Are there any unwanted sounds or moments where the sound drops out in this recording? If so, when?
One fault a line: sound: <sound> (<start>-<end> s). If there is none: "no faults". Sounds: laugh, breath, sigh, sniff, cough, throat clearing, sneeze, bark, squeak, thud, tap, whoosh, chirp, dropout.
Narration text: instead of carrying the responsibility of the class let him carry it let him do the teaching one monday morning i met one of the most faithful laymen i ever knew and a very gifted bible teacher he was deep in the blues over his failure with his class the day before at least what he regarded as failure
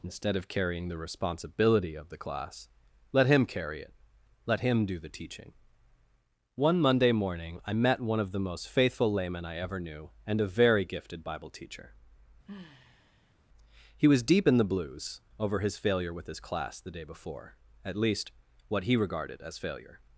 sound: sigh (12.4-13.4 s)